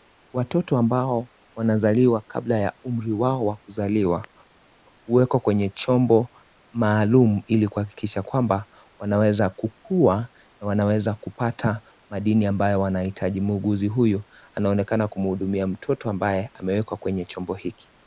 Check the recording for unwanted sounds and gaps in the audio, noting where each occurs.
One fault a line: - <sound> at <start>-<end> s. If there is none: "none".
none